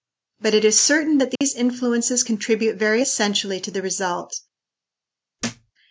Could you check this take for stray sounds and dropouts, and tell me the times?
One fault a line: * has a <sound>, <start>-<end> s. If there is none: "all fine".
* has a dropout, 1.4-1.4 s
* has a thud, 5.4-5.7 s